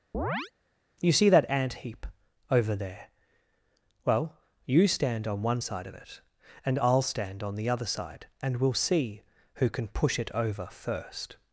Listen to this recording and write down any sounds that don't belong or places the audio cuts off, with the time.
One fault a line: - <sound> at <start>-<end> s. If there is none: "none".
- chirp at 0.1-0.5 s